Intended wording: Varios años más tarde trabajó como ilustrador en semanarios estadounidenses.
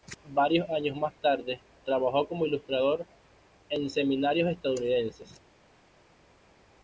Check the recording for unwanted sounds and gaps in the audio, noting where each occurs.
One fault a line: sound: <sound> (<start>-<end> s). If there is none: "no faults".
no faults